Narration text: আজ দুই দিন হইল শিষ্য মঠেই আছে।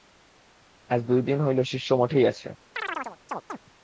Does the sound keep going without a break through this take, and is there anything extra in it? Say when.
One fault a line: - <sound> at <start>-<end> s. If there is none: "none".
- chirp at 2.8-3.6 s